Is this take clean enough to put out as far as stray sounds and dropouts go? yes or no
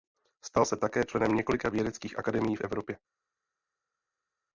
yes